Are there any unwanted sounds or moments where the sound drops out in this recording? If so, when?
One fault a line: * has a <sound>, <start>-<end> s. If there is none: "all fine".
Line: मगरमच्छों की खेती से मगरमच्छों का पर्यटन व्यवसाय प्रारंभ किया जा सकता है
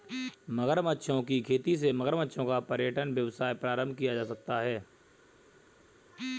all fine